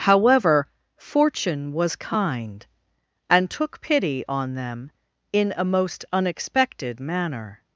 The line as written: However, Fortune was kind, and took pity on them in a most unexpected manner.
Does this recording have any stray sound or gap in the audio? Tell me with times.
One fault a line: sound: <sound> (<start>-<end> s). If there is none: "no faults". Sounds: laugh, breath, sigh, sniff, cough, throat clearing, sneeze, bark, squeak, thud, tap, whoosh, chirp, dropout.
no faults